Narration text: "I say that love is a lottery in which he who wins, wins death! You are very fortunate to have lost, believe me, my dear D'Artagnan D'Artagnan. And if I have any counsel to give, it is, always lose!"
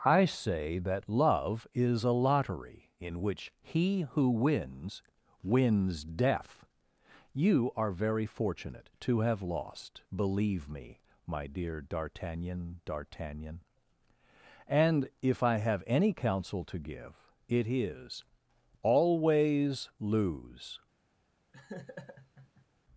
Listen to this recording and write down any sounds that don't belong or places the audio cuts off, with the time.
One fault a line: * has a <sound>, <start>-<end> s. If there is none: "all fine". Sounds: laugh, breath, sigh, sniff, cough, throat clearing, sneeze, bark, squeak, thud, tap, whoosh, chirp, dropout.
* has a laugh, 21.5-22.7 s